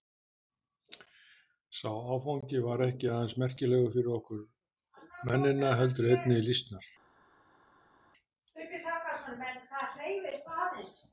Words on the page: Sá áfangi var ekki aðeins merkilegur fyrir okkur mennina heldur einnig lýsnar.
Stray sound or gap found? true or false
false